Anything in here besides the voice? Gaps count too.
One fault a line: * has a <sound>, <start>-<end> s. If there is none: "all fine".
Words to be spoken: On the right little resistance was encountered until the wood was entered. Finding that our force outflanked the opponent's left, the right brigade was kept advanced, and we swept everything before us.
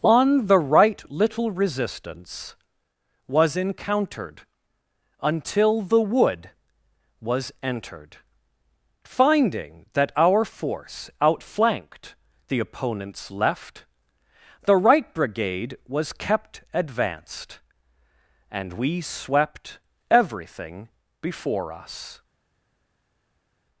all fine